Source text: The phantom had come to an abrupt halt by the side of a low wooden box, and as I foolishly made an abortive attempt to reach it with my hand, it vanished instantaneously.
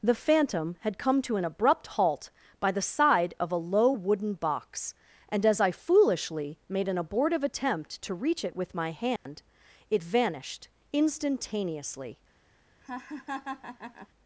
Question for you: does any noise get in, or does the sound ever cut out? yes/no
yes